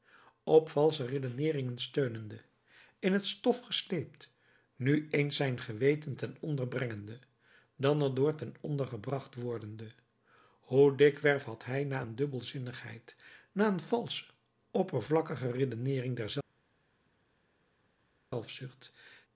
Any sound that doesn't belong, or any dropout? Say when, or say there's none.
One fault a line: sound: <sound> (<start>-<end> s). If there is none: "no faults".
no faults